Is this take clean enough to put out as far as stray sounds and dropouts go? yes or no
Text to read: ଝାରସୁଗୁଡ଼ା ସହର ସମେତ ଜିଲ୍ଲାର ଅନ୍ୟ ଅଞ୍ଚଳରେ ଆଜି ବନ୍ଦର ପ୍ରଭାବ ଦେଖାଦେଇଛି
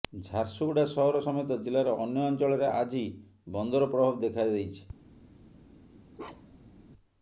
no